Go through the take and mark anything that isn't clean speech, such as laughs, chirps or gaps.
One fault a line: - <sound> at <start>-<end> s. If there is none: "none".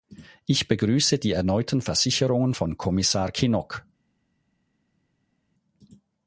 none